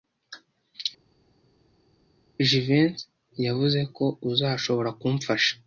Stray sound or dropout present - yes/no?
no